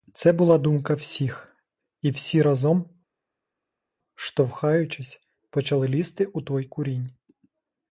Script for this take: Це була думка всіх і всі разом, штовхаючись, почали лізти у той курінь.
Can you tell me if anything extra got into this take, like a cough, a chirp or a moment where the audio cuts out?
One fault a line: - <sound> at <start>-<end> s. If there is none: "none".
none